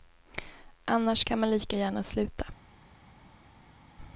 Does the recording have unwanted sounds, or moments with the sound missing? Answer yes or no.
no